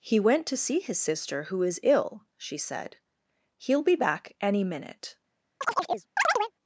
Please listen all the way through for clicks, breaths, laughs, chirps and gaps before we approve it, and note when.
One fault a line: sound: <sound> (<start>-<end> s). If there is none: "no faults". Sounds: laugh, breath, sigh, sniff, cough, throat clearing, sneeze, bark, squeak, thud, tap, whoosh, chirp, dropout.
sound: chirp (5.6-6.5 s)